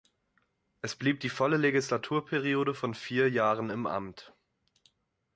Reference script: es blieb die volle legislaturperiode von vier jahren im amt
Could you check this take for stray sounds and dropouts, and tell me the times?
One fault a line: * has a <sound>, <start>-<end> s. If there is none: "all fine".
all fine